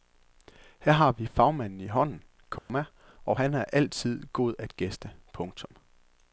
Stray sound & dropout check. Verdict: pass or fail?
fail